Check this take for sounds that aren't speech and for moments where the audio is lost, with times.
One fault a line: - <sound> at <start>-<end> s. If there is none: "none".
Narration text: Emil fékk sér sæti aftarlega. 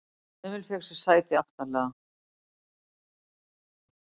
none